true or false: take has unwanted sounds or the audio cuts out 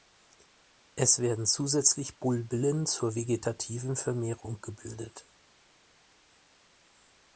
false